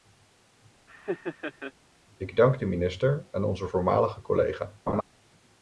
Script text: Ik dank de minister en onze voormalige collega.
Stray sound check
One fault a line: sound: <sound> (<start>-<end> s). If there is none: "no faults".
sound: laugh (0.9-1.7 s)
sound: laugh (4.9-5.0 s)